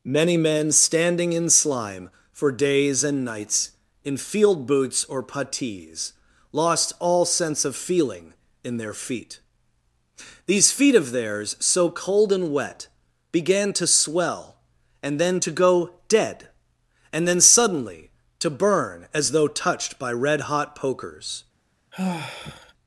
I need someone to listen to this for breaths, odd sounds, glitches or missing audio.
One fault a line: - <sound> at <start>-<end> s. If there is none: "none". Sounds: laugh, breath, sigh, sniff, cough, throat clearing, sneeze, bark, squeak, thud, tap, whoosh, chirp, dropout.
- sigh at 21.9-22.7 s